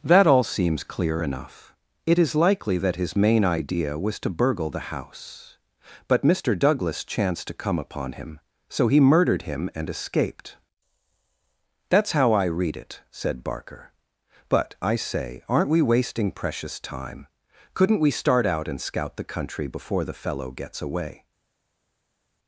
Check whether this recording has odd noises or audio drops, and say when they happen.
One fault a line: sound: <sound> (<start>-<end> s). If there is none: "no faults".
no faults